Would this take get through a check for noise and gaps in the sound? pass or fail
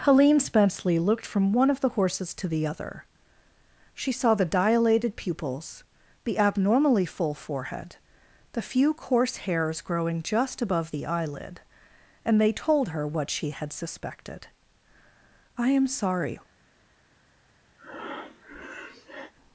fail